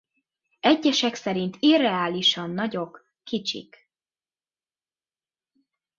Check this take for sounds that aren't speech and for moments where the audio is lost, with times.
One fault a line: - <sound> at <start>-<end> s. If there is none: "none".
none